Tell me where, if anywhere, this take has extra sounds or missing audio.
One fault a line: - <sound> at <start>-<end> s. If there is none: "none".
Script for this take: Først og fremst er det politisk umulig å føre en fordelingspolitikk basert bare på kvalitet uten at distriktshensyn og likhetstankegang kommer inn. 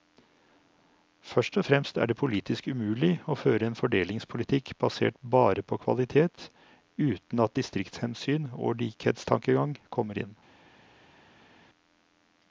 none